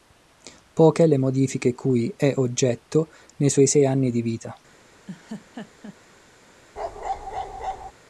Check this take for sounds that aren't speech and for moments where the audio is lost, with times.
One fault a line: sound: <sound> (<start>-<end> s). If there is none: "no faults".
sound: laugh (5.1-6.0 s)
sound: bark (6.8-7.9 s)